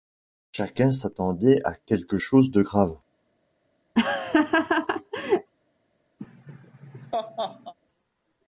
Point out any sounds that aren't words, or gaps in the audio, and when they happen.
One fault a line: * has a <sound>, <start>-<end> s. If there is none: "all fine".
* has a laugh, 4.0-5.5 s
* has a laugh, 6.2-7.7 s